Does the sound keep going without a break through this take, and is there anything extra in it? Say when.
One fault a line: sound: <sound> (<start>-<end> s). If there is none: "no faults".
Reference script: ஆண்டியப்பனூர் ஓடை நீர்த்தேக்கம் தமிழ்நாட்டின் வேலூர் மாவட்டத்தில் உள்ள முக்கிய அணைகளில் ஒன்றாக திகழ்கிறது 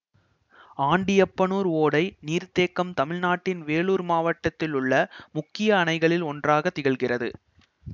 no faults